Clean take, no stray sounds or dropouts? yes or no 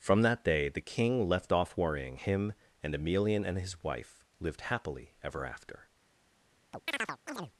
no